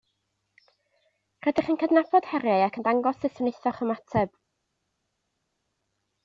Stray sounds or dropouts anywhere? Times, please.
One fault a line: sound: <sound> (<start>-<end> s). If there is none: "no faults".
no faults